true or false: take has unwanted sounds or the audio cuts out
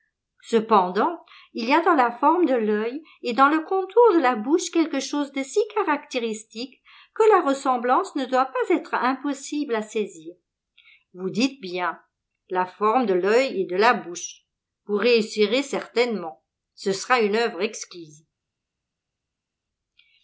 false